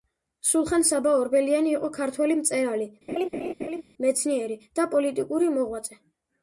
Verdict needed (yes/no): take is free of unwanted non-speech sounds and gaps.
no